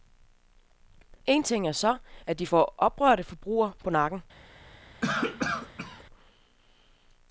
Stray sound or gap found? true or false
true